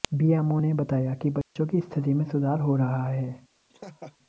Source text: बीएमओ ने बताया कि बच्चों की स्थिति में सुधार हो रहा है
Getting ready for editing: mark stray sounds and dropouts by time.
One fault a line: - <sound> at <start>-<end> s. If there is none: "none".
- dropout at 1.4-1.6 s
- laugh at 3.7-4.2 s